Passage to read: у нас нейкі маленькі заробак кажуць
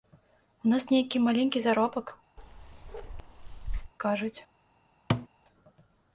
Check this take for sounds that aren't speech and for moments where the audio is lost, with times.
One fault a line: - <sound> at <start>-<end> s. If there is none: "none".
- bark at 2.4-3.9 s
- thud at 5.1-5.3 s